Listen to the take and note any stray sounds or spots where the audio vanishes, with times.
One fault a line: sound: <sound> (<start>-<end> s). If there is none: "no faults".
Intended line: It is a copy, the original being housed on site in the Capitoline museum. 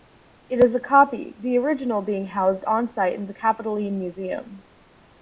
no faults